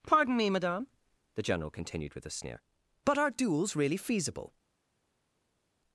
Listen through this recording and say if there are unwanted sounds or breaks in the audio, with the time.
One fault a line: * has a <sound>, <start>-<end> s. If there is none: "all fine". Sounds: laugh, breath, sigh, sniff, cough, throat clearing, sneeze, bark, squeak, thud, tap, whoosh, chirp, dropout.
all fine